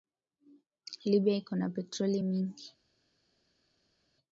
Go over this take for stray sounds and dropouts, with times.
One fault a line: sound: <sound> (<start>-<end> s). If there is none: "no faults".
no faults